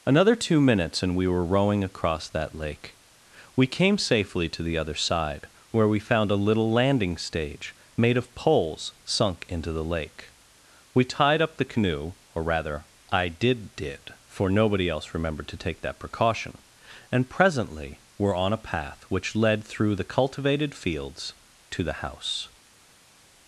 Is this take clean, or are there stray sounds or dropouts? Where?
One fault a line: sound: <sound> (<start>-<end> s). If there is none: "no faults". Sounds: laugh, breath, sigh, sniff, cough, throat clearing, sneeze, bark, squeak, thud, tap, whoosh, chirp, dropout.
no faults